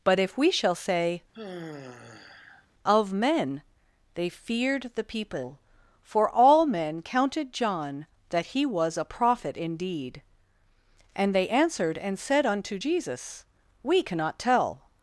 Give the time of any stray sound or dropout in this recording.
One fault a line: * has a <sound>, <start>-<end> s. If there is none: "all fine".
* has a sigh, 1.3-2.7 s